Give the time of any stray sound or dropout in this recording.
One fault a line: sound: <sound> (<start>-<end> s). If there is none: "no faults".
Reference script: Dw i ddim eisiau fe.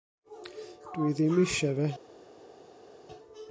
no faults